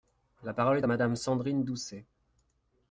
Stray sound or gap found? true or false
false